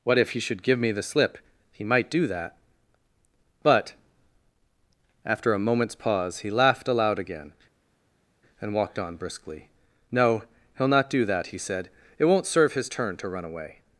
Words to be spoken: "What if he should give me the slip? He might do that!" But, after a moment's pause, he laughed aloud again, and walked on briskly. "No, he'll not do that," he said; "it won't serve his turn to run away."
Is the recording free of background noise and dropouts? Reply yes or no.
yes